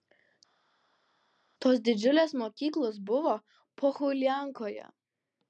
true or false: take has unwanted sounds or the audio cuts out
false